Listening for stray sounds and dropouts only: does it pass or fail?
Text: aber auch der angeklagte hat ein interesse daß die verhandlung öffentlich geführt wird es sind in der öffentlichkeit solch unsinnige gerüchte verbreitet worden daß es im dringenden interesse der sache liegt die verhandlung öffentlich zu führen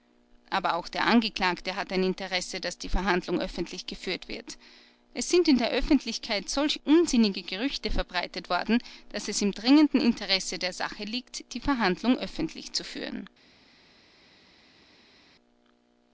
pass